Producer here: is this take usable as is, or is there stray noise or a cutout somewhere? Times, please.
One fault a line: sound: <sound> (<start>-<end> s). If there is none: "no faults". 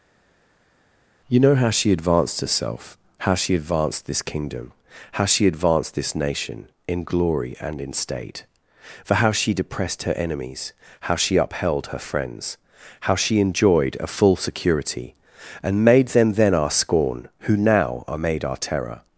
no faults